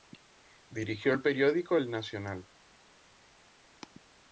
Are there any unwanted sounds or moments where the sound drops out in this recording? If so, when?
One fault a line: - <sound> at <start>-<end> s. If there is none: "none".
none